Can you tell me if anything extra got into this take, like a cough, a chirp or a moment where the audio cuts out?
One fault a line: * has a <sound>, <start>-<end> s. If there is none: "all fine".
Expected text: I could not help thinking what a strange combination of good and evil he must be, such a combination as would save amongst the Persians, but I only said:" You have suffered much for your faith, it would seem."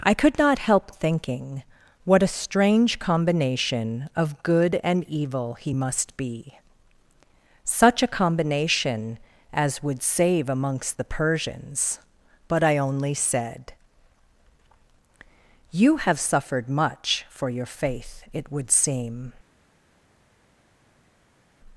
all fine